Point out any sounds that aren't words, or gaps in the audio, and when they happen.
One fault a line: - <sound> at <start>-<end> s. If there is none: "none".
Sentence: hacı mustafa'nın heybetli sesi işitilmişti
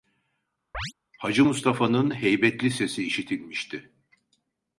- chirp at 0.7-0.9 s